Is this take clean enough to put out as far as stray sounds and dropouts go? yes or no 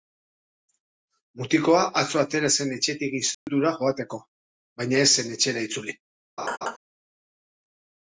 no